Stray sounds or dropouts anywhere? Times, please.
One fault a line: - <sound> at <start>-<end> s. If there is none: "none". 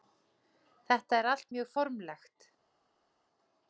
none